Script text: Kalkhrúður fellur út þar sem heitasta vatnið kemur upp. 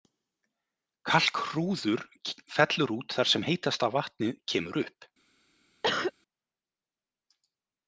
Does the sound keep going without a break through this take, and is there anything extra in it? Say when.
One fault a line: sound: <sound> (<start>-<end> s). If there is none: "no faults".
sound: cough (5.8-6.1 s)